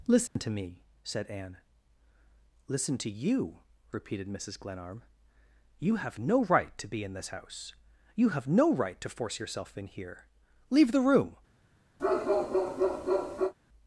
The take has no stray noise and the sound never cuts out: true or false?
false